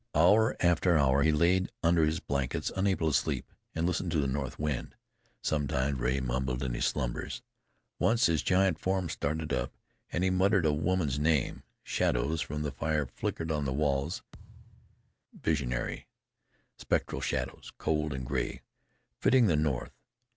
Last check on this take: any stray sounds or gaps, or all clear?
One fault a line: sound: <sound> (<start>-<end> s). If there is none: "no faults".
sound: thud (14.3-15.1 s)